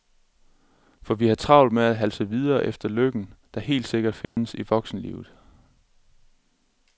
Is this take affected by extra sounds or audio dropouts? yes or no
yes